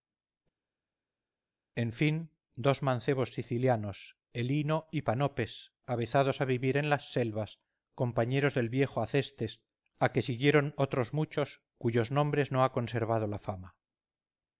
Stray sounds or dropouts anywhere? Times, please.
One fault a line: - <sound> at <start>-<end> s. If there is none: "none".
none